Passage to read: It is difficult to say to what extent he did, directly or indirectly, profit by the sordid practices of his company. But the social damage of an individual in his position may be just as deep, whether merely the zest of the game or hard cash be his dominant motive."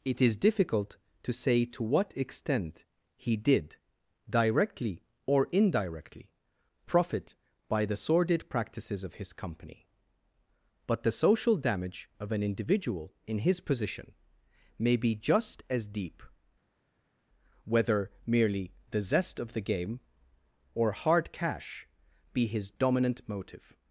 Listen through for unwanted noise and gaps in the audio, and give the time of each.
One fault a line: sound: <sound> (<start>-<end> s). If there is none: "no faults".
no faults